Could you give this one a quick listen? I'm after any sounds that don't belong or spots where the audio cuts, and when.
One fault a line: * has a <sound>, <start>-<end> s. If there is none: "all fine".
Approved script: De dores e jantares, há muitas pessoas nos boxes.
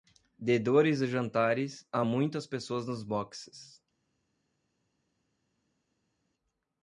all fine